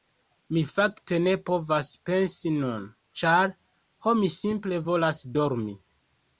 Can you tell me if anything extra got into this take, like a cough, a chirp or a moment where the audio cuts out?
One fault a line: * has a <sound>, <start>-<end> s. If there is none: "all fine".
all fine